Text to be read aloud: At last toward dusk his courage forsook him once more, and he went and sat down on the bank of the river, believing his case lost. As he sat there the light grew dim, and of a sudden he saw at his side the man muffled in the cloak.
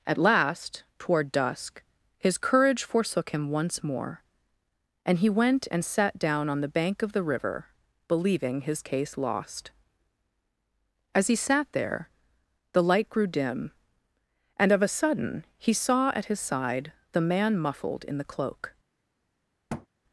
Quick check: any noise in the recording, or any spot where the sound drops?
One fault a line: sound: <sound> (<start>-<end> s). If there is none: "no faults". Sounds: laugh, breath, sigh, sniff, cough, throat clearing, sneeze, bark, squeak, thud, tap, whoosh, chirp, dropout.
sound: thud (19.7-19.9 s)